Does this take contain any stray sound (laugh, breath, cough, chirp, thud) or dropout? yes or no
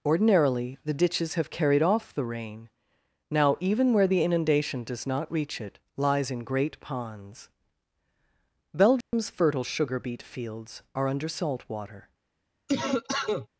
yes